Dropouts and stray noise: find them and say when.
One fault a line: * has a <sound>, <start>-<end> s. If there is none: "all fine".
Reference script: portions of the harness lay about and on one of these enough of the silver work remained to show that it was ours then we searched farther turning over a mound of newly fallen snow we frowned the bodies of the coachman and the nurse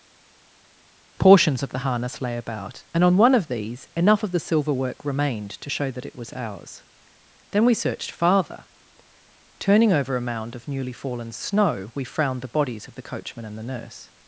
all fine